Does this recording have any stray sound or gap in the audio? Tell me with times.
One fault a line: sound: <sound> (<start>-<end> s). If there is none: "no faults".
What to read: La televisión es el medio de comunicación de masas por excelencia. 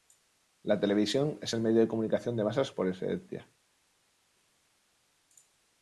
no faults